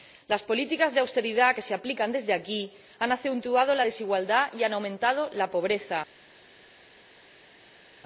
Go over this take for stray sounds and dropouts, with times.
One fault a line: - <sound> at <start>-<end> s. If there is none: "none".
none